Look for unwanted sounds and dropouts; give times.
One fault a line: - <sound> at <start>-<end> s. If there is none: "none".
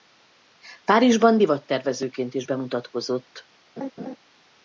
- laugh at 3.8-4.2 s